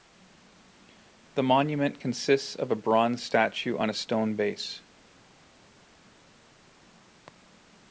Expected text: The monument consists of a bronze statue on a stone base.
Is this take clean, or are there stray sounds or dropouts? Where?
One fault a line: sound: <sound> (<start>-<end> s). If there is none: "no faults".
no faults